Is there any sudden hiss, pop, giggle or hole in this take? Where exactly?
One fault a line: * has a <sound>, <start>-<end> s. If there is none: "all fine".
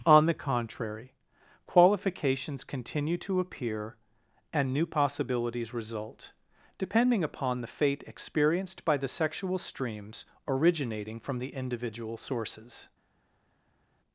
all fine